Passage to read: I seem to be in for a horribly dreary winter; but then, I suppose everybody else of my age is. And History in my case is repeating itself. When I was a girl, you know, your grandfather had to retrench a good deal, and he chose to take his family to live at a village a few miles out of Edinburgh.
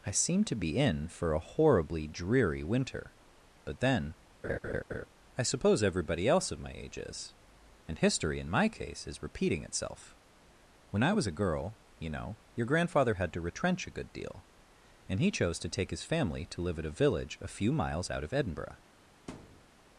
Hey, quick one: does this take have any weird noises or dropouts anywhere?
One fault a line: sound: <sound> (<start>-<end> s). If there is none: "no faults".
sound: laugh (4.4-5.1 s)
sound: thud (19.3-19.7 s)